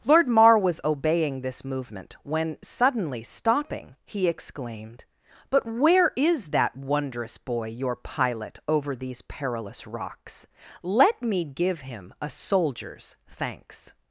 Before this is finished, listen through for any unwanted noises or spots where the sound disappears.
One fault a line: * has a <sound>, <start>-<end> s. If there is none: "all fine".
all fine